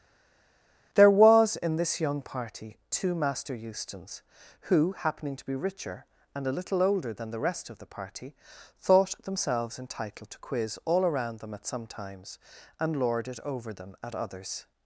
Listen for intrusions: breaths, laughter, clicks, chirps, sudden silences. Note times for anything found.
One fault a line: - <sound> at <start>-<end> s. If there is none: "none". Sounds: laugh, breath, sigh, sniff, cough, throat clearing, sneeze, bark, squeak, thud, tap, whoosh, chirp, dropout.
none